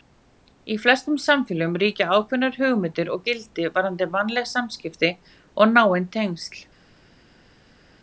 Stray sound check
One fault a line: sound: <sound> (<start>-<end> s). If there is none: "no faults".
no faults